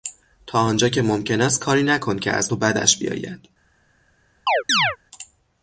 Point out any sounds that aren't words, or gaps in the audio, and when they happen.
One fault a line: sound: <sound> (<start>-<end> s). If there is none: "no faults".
sound: chirp (4.5-5.0 s)